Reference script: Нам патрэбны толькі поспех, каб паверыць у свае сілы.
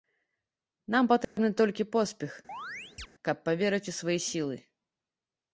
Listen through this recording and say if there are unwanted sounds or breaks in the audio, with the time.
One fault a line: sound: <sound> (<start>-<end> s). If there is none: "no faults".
sound: dropout (1.2-1.4 s)
sound: chirp (2.5-3.1 s)